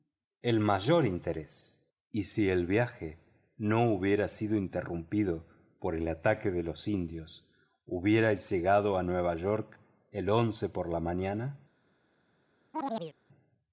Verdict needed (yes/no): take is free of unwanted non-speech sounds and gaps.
no